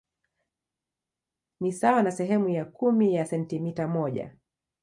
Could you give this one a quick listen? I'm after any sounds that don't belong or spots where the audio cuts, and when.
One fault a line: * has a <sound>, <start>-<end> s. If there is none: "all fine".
all fine